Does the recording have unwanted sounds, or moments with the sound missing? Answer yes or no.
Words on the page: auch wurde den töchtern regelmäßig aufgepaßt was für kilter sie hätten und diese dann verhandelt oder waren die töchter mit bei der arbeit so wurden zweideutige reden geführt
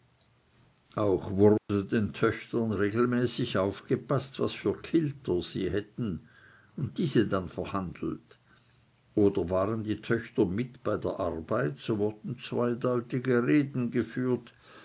yes